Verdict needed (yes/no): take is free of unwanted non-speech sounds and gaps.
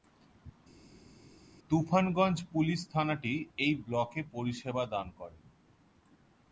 yes